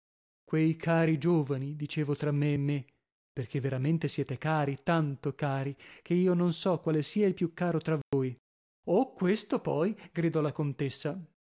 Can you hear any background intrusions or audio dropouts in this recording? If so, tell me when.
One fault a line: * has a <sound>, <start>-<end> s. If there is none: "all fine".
* has a dropout, 8.0-8.1 s